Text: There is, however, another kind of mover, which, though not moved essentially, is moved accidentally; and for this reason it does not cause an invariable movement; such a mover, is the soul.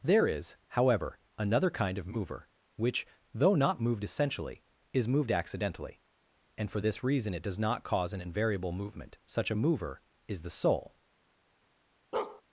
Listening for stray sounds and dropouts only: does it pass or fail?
fail